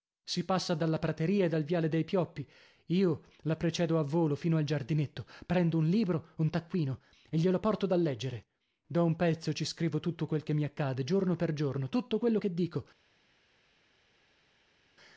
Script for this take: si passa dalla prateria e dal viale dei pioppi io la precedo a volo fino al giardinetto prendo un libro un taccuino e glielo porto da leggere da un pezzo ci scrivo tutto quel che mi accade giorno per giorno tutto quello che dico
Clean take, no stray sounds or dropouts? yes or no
yes